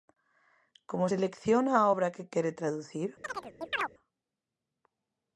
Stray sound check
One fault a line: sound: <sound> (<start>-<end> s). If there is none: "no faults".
sound: chirp (3.2-3.9 s)